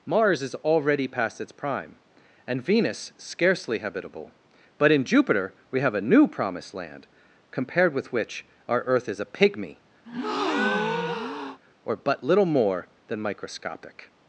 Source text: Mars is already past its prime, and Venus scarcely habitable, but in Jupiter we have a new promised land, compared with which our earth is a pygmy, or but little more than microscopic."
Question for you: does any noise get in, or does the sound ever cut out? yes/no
yes